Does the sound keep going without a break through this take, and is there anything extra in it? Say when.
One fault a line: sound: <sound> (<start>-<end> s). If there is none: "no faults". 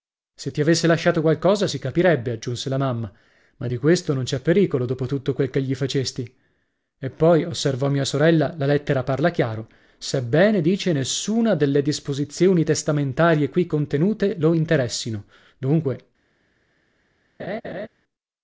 sound: laugh (17.4-17.9 s)